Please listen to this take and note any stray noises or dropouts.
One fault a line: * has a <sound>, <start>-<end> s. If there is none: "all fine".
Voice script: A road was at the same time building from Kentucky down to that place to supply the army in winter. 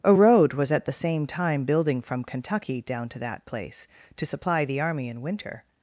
all fine